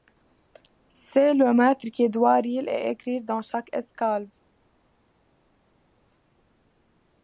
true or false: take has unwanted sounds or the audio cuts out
false